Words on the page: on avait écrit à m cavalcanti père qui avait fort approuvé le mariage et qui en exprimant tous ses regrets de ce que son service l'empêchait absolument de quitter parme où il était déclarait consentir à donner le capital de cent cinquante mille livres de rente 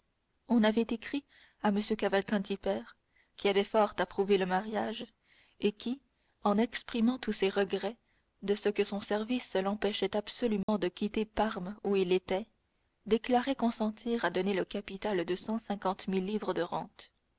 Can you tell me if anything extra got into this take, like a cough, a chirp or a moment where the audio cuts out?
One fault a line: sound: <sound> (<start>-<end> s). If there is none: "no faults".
sound: dropout (10.6-10.7 s)